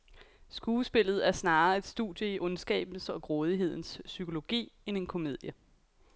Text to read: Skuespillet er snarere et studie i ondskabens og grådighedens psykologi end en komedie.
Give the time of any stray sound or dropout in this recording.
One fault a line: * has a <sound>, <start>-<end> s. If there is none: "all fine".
all fine